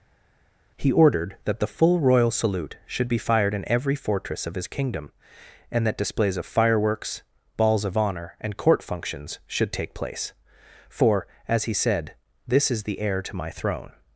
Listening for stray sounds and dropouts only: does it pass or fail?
pass